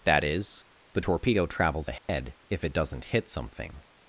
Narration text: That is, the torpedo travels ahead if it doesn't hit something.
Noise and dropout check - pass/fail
fail